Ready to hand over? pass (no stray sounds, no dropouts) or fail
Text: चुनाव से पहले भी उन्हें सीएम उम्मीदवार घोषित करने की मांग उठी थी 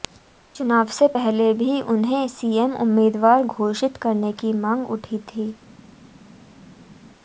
pass